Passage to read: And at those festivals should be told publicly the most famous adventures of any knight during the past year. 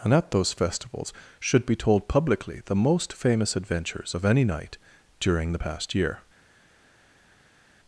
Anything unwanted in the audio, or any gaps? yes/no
no